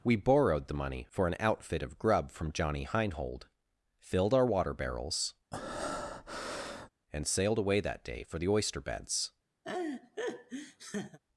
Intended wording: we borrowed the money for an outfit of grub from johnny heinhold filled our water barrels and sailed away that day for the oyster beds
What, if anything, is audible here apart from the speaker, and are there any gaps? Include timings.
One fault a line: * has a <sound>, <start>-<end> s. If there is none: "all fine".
* has a breath, 5.5-6.9 s
* has a laugh, 9.6-11.2 s